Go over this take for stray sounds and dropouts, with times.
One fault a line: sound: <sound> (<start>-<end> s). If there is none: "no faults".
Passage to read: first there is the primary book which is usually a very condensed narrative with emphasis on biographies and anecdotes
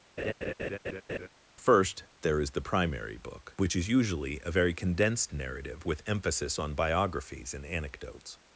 sound: laugh (0.2-1.3 s)